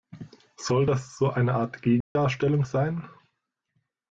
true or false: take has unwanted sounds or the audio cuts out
true